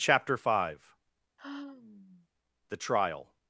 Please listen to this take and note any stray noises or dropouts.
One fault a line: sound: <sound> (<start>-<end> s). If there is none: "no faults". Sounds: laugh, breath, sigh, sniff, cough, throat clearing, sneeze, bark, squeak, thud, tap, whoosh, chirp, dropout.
sound: sigh (1.4-2.3 s)